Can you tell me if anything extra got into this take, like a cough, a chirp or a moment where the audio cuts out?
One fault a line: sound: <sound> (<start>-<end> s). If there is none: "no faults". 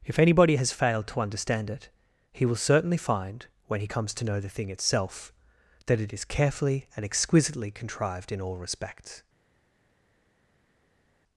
no faults